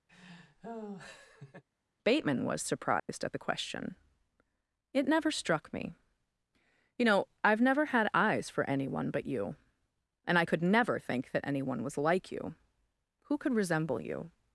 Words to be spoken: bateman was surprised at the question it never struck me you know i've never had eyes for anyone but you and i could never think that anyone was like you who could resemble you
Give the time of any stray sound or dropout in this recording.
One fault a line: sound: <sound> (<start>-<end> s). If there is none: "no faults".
sound: laugh (0.1-1.6 s)
sound: dropout (3.0-3.1 s)